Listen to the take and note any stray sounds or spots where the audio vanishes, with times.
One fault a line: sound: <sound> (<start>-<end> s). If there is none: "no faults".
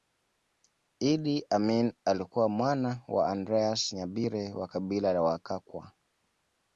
no faults